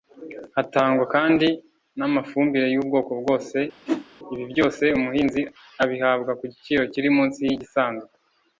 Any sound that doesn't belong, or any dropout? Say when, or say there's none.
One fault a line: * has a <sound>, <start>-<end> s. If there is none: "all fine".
* has a whoosh, 3.9-4.1 s